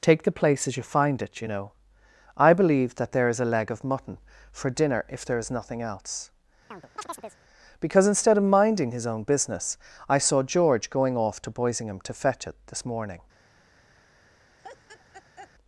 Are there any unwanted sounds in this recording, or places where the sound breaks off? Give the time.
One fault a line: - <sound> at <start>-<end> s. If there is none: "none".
- chirp at 6.7-7.4 s
- laugh at 14.6-15.5 s